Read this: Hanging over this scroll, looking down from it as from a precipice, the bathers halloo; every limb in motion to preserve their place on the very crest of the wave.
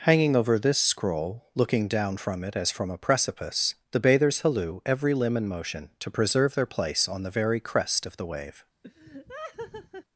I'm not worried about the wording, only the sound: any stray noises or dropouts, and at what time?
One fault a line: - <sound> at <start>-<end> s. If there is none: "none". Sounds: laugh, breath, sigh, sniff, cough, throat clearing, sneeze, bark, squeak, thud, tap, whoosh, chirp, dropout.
- laugh at 8.8-10.0 s